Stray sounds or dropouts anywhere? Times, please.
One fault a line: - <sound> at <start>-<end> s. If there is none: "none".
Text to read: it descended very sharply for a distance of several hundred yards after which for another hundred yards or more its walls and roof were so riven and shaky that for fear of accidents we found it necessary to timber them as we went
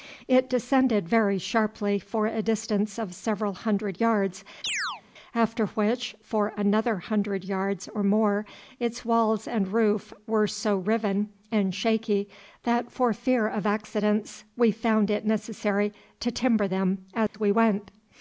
- chirp at 4.6-5.0 s
- dropout at 17.3-17.3 s